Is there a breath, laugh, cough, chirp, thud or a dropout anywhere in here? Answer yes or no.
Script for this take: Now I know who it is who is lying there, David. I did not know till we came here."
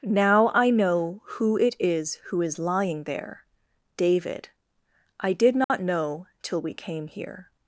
yes